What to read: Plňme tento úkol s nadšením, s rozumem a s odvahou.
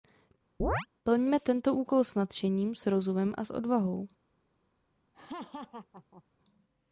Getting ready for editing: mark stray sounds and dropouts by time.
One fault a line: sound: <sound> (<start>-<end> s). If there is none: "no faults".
sound: chirp (0.6-0.9 s)
sound: laugh (5.1-6.2 s)